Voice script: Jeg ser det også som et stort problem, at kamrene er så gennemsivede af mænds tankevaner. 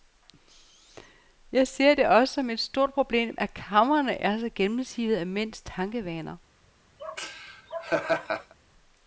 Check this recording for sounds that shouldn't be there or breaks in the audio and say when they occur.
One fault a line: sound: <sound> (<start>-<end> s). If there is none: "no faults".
sound: laugh (7.0-8.5 s)